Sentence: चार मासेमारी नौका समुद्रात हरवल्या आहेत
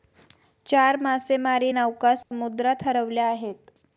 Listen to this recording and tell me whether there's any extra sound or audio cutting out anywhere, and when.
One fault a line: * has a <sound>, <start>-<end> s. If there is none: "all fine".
* has a dropout, 2.2-2.3 s